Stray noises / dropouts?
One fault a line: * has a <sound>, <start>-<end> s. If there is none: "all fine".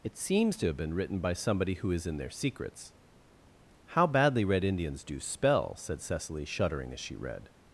all fine